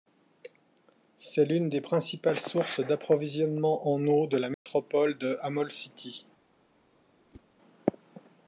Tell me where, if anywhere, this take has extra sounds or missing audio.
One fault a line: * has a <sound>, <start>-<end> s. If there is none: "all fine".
* has a dropout, 4.5-4.7 s
* has a whoosh, 7.3-7.5 s